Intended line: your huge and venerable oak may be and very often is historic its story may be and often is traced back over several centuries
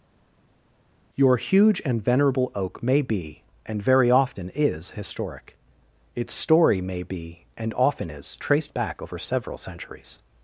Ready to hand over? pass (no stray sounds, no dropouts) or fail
pass